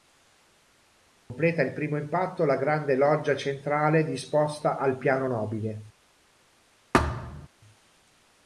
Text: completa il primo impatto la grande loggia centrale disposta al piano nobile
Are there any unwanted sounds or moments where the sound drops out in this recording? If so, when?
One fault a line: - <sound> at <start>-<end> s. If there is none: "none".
- dropout at 1.2-1.3 s
- thud at 6.9-7.5 s